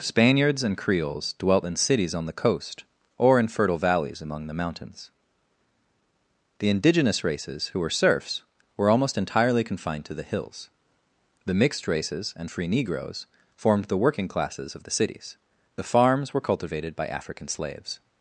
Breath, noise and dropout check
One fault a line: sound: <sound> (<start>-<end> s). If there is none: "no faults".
no faults